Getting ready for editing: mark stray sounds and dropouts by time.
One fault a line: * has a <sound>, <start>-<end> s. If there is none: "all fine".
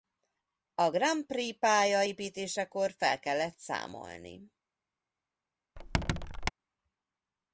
* has a squeak, 5.8-6.5 s